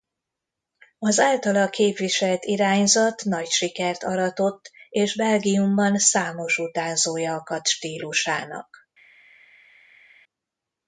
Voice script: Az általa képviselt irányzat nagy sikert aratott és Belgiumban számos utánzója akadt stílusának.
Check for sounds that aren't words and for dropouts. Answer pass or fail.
pass